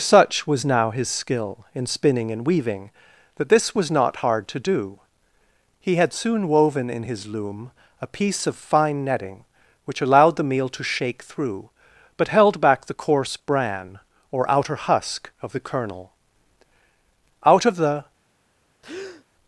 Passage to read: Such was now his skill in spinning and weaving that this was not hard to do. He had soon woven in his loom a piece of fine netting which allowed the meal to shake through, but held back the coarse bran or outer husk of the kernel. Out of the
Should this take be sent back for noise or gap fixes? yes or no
yes